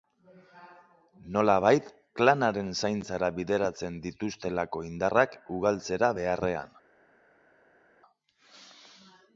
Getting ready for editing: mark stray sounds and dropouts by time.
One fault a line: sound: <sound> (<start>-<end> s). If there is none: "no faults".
no faults